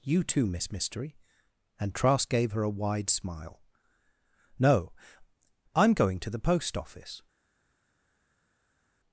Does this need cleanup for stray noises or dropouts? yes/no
no